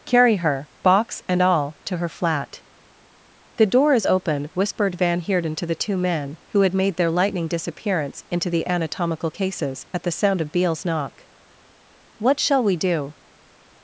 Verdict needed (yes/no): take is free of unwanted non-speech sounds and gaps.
yes